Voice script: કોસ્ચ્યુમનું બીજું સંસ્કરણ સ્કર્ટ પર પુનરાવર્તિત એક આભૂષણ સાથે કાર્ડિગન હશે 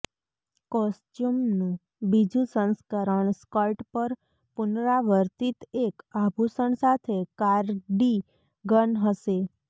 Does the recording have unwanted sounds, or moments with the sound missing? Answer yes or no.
no